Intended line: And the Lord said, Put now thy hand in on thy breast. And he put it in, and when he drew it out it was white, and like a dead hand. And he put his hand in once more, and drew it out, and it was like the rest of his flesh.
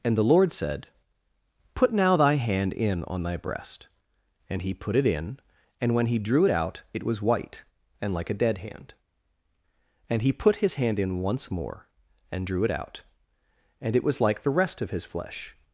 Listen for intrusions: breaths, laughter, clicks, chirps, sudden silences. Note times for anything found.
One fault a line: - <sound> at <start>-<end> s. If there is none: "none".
none